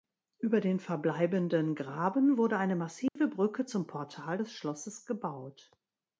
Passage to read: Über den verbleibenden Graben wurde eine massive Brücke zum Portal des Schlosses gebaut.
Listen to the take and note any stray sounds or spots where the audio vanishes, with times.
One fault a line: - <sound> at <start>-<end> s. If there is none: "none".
- dropout at 3.1-3.2 s